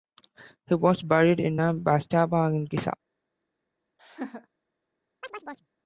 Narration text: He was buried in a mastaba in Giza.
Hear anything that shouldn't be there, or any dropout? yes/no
yes